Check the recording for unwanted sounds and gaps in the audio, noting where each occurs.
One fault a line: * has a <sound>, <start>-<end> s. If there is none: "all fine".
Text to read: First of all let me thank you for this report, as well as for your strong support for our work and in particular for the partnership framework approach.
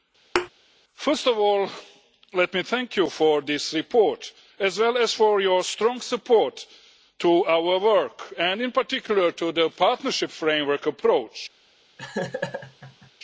* has a thud, 0.3-0.5 s
* has a laugh, 12.0-13.1 s